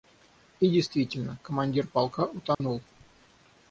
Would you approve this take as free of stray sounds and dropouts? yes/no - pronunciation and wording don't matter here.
no